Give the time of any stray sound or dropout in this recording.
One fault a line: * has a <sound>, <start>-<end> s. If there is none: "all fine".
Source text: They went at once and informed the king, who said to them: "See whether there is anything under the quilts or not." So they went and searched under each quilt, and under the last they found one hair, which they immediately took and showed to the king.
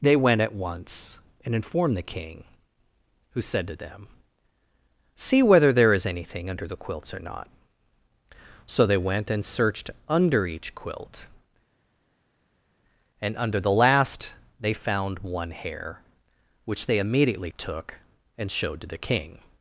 all fine